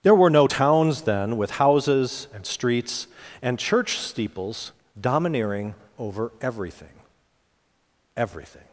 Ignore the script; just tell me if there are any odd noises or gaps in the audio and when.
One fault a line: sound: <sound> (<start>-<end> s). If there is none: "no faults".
no faults